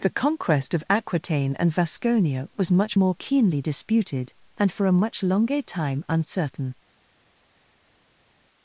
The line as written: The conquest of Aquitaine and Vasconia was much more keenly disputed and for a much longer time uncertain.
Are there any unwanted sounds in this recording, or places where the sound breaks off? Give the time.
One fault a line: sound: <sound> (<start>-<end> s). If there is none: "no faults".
no faults